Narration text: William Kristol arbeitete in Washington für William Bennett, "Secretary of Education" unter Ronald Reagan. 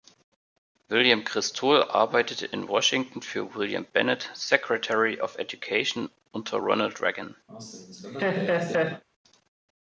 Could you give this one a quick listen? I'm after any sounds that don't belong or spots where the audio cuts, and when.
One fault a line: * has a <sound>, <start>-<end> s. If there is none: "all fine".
* has a laugh, 7.5-9.0 s